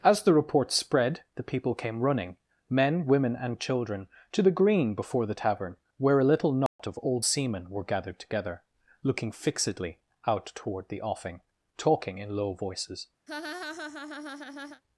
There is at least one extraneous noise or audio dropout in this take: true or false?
true